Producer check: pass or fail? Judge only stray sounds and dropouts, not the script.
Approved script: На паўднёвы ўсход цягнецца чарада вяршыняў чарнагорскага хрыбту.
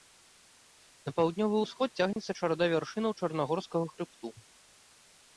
fail